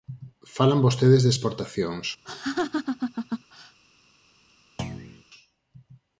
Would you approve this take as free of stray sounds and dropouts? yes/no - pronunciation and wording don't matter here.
no